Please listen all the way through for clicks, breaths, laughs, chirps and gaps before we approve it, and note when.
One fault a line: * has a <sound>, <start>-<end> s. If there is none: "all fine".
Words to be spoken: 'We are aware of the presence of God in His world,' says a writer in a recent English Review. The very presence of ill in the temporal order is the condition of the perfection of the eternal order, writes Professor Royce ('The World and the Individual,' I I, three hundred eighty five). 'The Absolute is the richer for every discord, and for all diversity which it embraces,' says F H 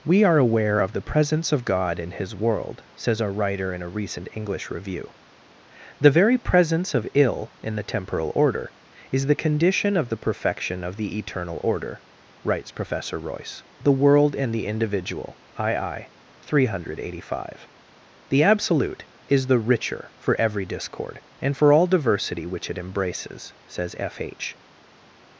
all fine